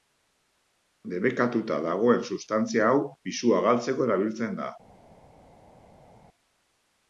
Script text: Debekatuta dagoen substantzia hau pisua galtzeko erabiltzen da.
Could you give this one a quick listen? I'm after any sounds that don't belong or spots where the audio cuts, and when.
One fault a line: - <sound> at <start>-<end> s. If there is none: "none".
none